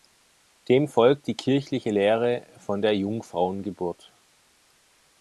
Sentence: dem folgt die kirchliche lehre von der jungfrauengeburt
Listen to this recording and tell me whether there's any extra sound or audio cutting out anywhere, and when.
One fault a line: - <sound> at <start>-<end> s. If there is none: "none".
none